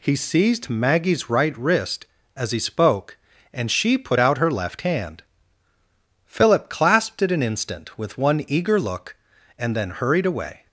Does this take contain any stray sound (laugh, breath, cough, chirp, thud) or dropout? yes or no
no